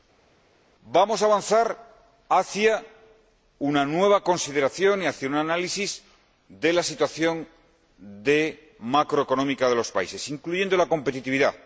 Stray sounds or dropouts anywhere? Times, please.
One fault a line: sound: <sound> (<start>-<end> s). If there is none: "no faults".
no faults